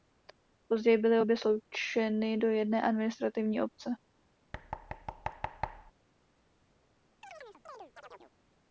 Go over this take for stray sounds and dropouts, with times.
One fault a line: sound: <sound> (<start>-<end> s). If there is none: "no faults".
sound: thud (4.5-5.9 s)
sound: chirp (7.2-8.3 s)